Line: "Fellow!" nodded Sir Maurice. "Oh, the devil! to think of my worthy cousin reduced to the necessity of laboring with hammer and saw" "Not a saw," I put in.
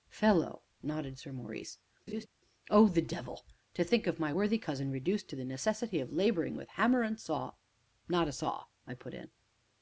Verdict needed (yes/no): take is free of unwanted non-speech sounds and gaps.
no